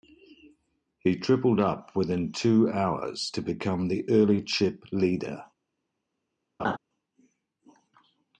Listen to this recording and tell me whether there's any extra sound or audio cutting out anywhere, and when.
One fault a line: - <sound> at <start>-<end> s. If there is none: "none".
- laugh at 6.6-6.8 s